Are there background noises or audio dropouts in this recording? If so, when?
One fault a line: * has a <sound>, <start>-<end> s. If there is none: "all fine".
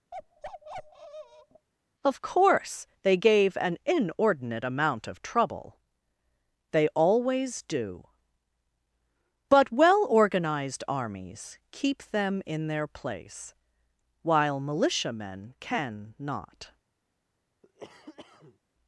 * has a bark, 0.1-1.7 s
* has a cough, 17.6-18.6 s